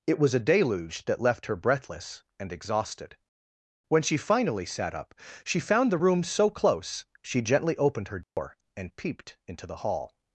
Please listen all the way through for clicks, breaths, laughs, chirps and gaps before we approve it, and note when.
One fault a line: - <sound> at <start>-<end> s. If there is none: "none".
- dropout at 8.2-8.4 s